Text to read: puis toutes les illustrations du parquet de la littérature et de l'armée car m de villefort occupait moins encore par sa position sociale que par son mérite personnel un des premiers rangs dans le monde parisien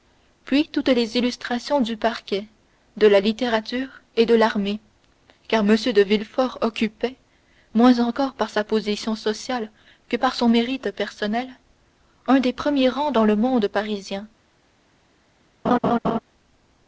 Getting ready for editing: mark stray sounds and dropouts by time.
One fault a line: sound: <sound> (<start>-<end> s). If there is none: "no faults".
sound: laugh (15.6-16.2 s)